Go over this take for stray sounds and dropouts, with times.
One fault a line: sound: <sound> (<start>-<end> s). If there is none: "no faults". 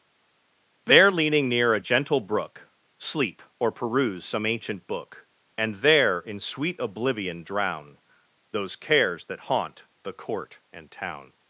no faults